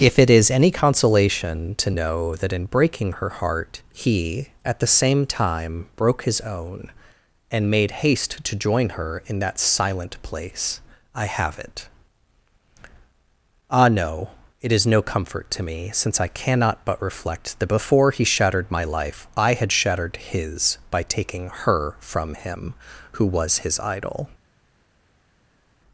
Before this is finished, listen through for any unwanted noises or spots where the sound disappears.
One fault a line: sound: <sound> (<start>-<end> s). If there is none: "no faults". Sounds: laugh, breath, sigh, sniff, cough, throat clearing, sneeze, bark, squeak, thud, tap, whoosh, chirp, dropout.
no faults